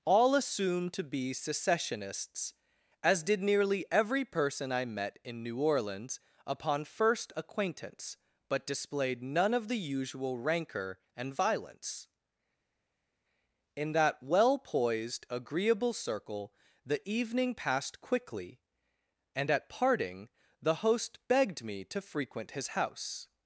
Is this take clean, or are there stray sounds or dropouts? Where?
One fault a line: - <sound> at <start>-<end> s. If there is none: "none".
none